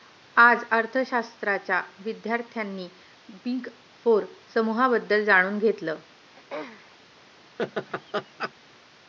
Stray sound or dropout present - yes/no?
yes